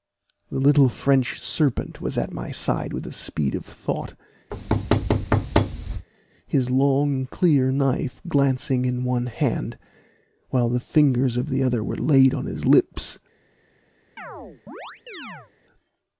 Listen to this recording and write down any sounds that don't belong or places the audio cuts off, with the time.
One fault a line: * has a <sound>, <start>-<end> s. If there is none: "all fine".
* has a thud, 4.5-6.1 s
* has a chirp, 14.2-15.5 s